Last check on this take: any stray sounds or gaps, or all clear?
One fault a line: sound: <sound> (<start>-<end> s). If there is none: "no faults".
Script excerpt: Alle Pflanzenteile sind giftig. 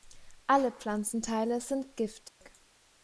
sound: dropout (2.3-2.4 s)